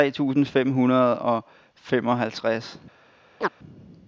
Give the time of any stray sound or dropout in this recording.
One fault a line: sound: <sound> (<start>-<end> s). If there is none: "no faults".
sound: chirp (3.4-3.5 s)